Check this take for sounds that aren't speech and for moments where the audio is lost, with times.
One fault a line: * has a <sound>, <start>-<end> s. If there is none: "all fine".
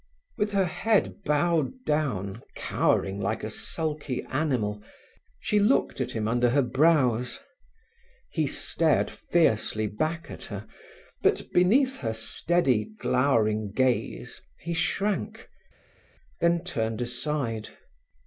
all fine